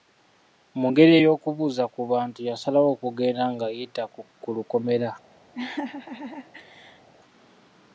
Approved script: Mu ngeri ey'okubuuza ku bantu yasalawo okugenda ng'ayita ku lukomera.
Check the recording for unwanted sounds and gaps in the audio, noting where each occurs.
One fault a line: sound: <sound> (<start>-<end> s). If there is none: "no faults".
sound: laugh (5.5-7.1 s)